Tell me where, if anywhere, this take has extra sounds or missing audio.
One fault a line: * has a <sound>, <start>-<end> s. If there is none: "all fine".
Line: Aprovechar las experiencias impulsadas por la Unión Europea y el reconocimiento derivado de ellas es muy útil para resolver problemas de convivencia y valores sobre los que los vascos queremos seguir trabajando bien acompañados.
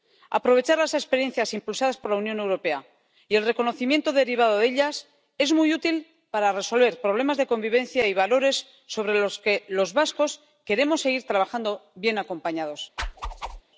* has a whoosh, 13.0-13.6 s